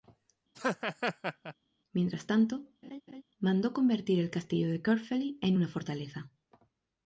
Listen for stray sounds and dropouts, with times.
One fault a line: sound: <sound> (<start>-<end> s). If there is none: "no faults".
sound: laugh (0.5-1.5 s)
sound: laugh (2.8-3.2 s)